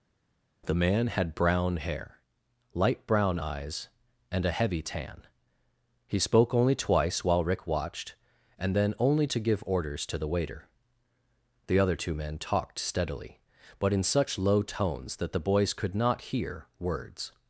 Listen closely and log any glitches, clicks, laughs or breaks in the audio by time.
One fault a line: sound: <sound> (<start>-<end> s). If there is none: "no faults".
no faults